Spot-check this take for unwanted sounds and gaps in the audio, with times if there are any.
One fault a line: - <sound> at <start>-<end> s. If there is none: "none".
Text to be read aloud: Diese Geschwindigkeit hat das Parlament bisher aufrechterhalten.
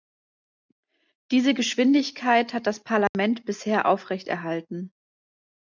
- dropout at 3.1-3.1 s